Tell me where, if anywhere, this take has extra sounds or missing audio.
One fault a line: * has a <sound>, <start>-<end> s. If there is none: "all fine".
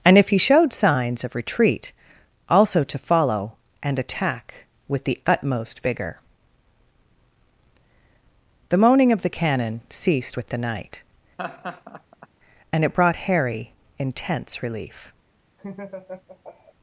* has a laugh, 11.4-12.3 s
* has a laugh, 15.6-16.7 s